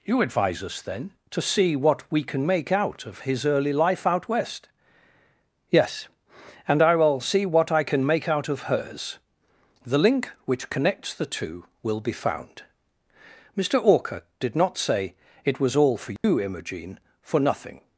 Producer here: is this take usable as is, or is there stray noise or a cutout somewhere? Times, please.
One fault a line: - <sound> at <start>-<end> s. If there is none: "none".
- dropout at 16.2-16.2 s